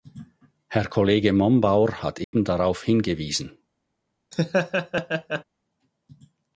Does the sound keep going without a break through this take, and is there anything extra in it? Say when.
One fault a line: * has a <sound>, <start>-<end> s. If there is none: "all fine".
* has a dropout, 2.2-2.3 s
* has a laugh, 4.3-5.4 s